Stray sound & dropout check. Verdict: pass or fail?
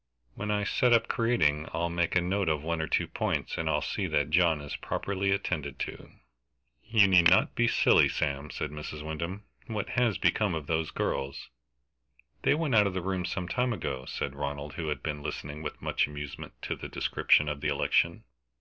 pass